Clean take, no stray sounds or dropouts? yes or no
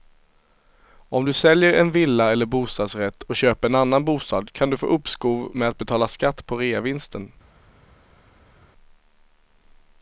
yes